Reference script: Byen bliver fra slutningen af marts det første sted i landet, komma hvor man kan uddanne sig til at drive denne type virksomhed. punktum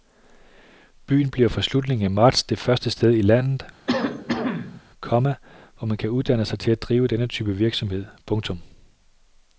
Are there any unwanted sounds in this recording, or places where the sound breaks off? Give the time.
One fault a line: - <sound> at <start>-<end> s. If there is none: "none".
- cough at 3.9-4.8 s